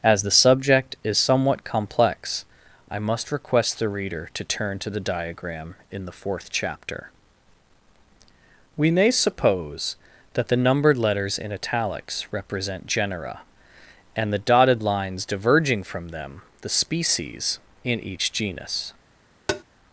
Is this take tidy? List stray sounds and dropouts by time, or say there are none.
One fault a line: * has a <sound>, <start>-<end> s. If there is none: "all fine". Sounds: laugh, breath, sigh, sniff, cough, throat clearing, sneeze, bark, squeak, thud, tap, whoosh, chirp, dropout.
* has a tap, 19.5-19.6 s